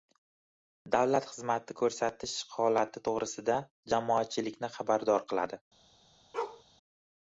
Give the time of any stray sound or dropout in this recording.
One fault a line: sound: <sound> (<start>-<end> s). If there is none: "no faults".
sound: bark (6.3-6.6 s)